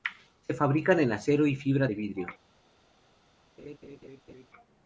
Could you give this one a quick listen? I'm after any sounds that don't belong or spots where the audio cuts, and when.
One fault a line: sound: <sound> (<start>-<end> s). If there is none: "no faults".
sound: laugh (3.6-4.5 s)